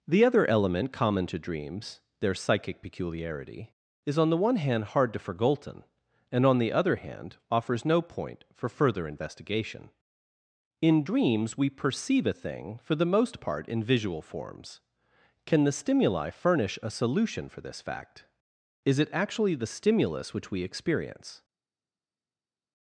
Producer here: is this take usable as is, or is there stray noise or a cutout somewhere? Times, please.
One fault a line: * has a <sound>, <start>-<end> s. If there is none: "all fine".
all fine